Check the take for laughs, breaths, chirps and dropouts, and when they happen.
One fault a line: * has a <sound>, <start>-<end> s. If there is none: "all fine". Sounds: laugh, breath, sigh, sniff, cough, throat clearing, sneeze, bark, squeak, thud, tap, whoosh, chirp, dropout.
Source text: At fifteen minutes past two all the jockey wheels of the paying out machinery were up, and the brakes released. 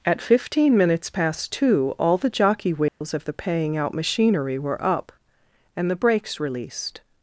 * has a dropout, 2.9-3.0 s